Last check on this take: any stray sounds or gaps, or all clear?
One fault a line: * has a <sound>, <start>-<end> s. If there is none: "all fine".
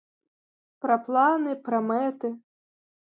all fine